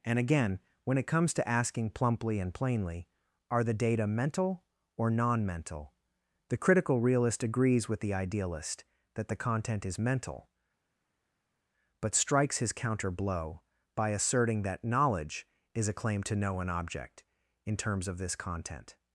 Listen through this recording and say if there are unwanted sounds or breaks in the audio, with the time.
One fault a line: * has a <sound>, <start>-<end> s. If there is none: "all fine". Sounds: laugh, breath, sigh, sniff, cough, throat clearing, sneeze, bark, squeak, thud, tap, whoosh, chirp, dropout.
all fine